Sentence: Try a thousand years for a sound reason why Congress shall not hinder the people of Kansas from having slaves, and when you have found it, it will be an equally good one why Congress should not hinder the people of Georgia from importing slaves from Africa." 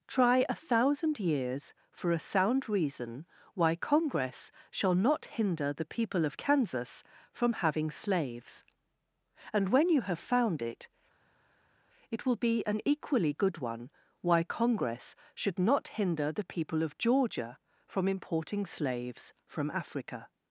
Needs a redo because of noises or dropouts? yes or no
no